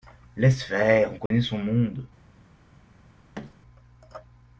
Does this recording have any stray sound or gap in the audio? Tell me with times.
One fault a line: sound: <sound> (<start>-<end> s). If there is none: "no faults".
sound: dropout (1.3-1.3 s)
sound: thud (3.3-3.5 s)